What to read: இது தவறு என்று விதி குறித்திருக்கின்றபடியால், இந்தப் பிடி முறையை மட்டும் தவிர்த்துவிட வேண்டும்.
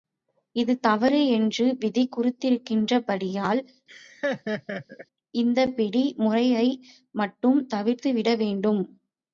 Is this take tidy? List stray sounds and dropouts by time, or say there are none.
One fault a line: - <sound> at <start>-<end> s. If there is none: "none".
- laugh at 3.9-5.1 s